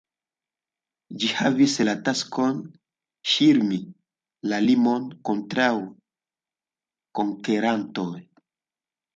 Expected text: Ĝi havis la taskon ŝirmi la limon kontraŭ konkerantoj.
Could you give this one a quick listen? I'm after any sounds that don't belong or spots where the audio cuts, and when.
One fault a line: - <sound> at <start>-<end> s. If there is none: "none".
none